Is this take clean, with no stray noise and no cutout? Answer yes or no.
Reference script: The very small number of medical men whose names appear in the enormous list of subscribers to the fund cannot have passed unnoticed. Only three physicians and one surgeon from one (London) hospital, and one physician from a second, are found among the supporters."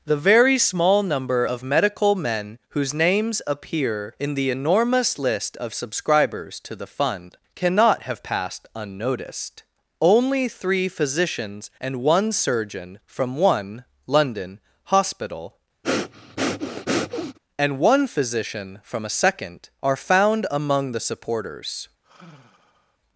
no